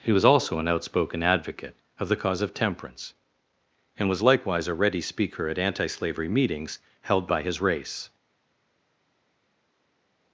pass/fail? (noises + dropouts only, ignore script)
pass